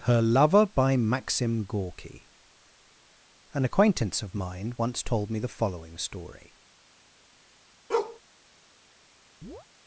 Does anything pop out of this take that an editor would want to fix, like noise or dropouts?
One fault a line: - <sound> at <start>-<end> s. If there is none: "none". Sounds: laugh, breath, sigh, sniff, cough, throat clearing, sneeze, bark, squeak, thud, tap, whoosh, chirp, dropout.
- bark at 7.9-8.2 s
- chirp at 9.4-9.7 s